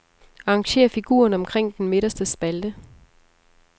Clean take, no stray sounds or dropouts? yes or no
yes